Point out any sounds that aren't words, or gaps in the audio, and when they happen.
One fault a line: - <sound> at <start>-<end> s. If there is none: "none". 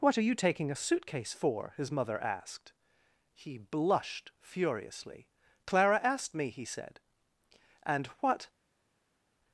none